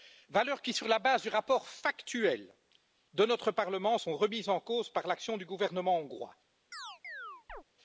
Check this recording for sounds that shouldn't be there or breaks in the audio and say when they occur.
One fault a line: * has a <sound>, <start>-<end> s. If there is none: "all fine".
* has a chirp, 6.7-7.6 s